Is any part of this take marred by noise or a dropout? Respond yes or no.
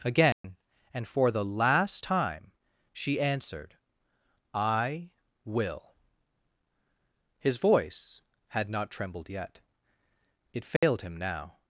yes